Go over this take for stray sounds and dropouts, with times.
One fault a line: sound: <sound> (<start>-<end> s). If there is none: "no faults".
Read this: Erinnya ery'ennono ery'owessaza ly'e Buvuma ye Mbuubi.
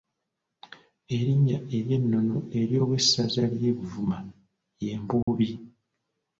sound: dropout (5.2-5.3 s)